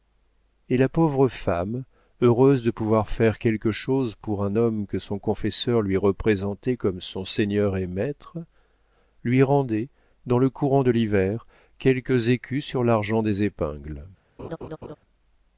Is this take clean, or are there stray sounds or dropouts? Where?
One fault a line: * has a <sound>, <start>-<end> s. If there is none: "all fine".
* has a laugh, 14.4-15.0 s